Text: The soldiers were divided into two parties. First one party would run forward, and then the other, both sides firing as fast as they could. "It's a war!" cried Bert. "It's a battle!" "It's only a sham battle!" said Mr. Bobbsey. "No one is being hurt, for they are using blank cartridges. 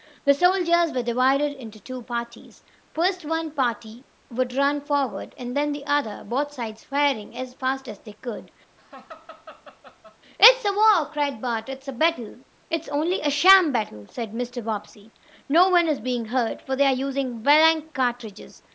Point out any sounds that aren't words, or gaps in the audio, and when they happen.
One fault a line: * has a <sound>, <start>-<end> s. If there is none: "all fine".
* has a laugh, 8.8-10.2 s